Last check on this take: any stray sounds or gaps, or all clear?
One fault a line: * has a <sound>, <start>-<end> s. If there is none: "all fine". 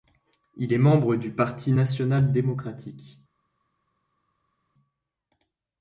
all fine